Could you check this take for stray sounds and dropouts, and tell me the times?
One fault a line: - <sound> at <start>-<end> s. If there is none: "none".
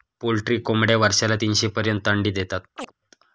- chirp at 2.8-2.9 s